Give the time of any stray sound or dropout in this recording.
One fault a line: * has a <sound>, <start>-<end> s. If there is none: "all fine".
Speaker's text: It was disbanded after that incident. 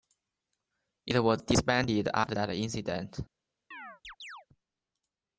* has a chirp, 3.7-4.5 s